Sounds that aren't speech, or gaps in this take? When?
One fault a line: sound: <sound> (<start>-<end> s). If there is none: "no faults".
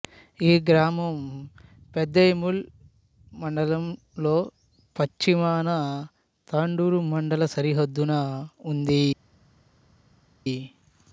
no faults